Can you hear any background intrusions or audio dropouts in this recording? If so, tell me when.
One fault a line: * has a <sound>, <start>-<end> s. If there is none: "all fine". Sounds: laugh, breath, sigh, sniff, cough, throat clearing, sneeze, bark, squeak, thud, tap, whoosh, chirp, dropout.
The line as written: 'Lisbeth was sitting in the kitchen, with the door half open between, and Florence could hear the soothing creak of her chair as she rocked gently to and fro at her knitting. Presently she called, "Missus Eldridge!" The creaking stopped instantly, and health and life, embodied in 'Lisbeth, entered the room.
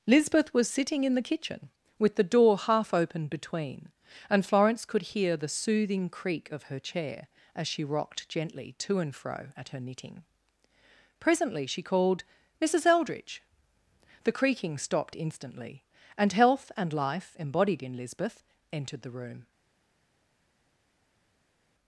all fine